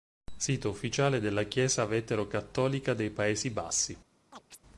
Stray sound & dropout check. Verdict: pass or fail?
fail